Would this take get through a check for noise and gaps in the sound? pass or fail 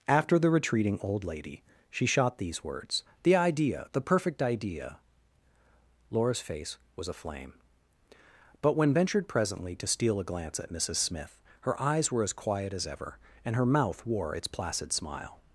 pass